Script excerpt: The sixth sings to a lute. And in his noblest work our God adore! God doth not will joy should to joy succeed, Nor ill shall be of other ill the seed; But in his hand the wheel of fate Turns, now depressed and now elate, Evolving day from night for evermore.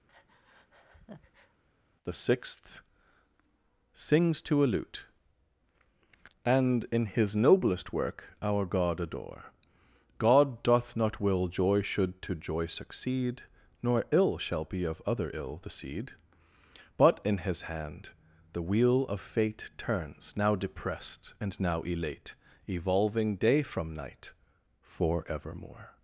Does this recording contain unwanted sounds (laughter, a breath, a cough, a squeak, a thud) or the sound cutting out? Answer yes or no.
yes